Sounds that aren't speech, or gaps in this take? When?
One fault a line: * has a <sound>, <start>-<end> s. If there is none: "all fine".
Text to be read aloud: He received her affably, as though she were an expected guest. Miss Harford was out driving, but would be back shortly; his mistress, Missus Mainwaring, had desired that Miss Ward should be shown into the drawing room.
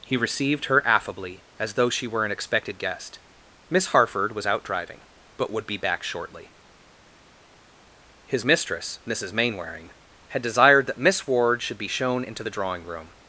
all fine